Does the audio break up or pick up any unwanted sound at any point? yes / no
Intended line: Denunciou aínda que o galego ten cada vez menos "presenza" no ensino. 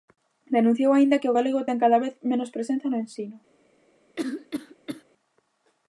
yes